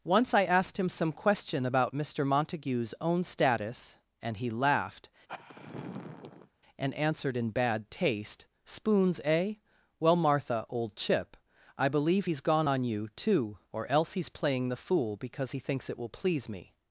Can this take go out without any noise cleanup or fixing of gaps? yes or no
no